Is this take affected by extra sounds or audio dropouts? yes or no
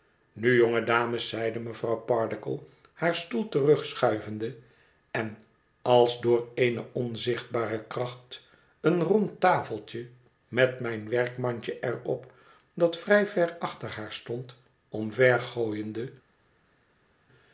no